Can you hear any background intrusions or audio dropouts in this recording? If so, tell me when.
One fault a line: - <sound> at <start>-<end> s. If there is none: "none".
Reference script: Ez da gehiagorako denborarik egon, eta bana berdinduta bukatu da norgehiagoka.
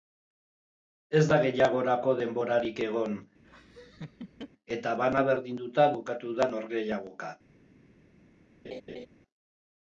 - laugh at 3.4-4.5 s
- laugh at 8.6-9.1 s